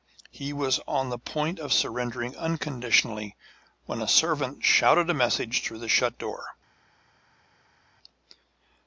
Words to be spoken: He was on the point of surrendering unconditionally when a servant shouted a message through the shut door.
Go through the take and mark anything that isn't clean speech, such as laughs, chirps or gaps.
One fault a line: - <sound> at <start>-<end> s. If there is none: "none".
none